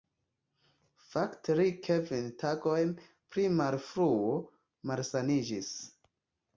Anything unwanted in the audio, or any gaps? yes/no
no